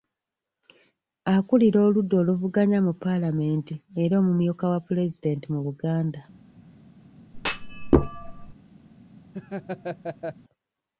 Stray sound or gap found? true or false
true